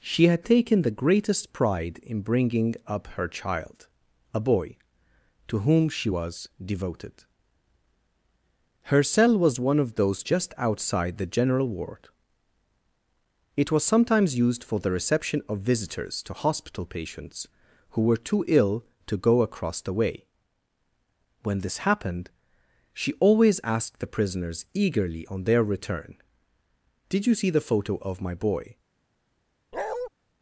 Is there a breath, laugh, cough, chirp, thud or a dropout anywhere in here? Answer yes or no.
yes